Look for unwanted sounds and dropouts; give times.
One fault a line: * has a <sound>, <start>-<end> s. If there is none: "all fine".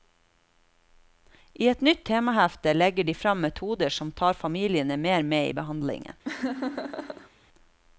* has a laugh, 6.2-7.3 s